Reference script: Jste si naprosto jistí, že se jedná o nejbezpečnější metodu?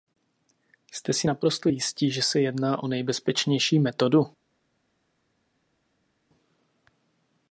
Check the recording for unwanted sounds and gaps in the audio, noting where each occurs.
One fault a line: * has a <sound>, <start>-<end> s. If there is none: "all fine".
all fine